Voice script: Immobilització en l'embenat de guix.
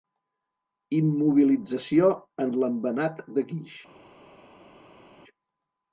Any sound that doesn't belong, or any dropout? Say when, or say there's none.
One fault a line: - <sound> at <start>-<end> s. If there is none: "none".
none